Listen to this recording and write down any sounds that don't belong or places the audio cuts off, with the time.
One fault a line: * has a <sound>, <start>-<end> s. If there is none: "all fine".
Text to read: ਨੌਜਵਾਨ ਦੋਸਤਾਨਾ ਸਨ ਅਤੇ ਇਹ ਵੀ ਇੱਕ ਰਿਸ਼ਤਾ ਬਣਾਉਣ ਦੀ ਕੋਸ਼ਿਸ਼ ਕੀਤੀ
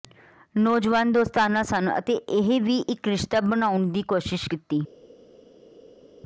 all fine